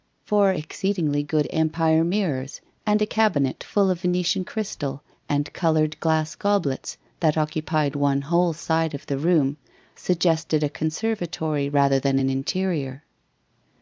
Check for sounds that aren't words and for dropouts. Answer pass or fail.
pass